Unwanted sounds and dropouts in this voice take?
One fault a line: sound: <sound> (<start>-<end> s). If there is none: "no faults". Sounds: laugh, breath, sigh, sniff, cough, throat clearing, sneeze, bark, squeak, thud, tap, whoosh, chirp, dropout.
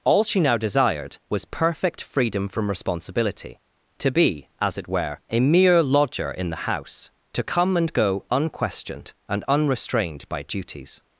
no faults